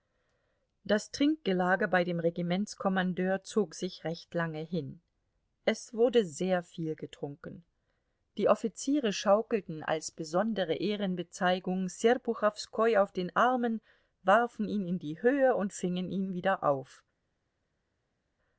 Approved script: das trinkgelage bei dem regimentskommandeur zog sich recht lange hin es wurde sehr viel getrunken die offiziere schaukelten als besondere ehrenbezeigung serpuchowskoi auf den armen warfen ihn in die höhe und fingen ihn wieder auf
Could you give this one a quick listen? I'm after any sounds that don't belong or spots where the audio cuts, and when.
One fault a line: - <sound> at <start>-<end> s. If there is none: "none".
none